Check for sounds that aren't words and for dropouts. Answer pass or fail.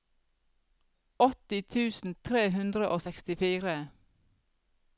pass